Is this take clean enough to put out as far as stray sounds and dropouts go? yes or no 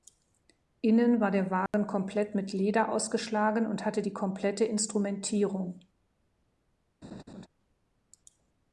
no